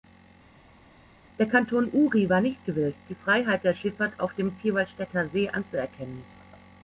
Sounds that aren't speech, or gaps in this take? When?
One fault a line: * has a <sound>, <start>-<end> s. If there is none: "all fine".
all fine